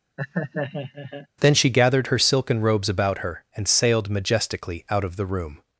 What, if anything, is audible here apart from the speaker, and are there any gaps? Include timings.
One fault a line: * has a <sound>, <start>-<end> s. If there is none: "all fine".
* has a laugh, 0.2-1.3 s